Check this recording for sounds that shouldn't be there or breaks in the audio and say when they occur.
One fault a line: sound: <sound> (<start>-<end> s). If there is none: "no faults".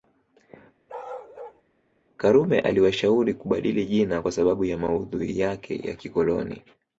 sound: bark (0.9-1.6 s)